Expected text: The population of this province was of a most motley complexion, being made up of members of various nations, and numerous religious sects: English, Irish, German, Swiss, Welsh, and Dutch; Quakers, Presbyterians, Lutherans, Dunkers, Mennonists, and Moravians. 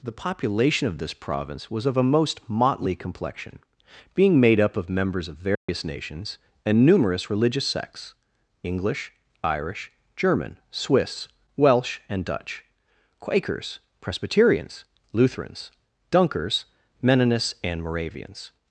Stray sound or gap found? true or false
true